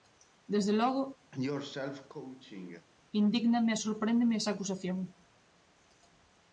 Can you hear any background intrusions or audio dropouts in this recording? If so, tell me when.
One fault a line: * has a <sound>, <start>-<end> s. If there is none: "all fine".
* has a cough, 1.3-2.9 s